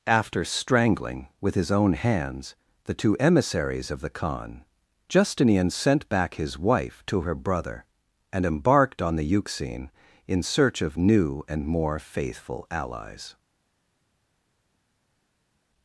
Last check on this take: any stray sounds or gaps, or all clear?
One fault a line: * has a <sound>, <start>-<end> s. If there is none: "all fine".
all fine